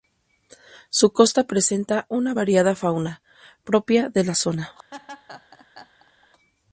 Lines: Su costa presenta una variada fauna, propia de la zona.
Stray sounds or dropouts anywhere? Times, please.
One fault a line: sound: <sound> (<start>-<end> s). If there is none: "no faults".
sound: laugh (4.9-6.3 s)